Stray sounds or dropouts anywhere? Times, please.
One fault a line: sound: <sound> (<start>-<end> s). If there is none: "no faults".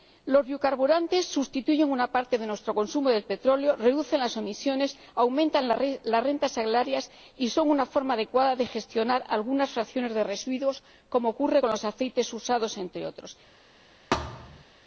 sound: thud (14.1-14.6 s)